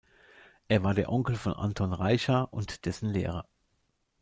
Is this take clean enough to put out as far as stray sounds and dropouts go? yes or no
yes